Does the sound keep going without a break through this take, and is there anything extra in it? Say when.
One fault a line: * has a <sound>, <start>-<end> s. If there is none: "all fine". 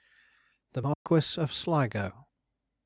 * has a dropout, 0.9-1.1 s